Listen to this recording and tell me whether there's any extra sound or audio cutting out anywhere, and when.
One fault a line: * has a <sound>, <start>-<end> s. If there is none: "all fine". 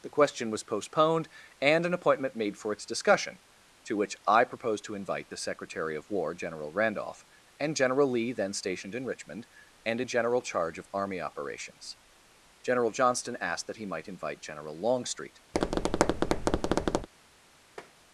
* has a tap, 15.5-17.1 s
* has a tap, 17.8-17.9 s